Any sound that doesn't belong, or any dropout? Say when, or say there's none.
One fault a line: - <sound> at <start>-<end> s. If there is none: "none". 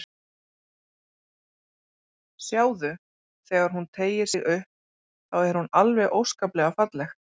none